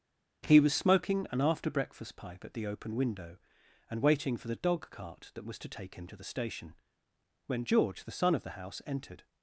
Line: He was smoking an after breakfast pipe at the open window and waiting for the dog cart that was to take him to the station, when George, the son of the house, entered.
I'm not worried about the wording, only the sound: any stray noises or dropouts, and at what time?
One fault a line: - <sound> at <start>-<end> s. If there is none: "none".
none